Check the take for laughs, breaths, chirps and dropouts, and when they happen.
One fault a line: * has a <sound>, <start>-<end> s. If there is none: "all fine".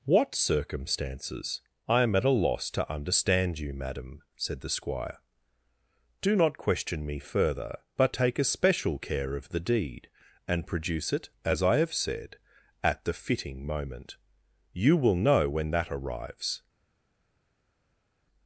all fine